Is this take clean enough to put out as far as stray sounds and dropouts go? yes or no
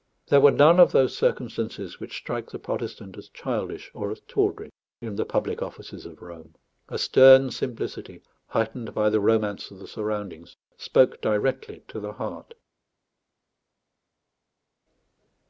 yes